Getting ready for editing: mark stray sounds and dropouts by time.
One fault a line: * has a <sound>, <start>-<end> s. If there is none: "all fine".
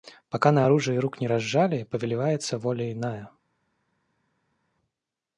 all fine